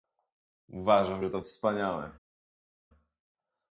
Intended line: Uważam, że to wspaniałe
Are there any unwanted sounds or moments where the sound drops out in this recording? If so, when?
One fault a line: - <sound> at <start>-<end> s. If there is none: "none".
none